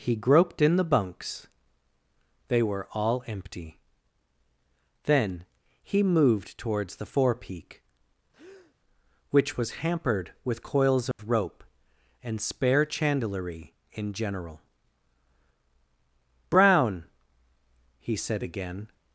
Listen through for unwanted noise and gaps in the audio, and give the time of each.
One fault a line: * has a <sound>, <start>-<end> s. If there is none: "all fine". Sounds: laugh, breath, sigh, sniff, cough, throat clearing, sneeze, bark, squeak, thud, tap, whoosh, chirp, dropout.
* has a breath, 8.3-8.8 s
* has a dropout, 11.1-11.2 s